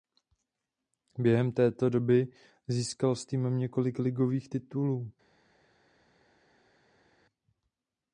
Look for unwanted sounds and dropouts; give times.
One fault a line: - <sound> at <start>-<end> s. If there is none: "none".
none